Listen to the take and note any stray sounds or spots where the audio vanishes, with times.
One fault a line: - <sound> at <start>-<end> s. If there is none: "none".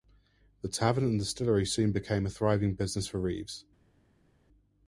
none